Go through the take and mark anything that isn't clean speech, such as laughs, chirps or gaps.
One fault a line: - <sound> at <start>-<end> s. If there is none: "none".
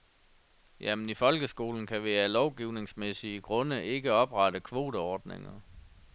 none